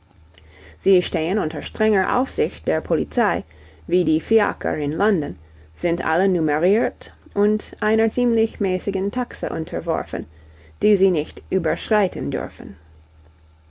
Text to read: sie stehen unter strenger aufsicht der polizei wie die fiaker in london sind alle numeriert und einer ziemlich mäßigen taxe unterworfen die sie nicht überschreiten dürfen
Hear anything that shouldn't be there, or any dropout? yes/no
no